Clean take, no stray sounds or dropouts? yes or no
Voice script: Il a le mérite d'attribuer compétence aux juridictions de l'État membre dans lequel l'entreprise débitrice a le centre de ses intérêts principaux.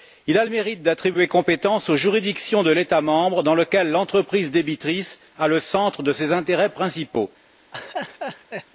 no